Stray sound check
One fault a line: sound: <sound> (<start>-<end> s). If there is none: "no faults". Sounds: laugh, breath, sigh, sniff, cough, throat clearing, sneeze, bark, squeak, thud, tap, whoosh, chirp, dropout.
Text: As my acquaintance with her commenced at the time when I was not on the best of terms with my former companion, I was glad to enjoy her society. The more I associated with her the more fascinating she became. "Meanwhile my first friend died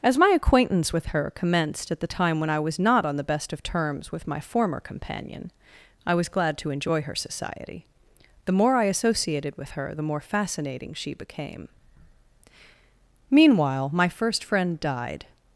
no faults